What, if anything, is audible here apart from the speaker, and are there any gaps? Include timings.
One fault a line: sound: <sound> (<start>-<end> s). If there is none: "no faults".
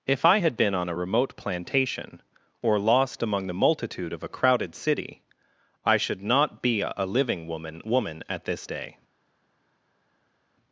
no faults